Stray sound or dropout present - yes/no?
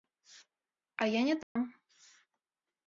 yes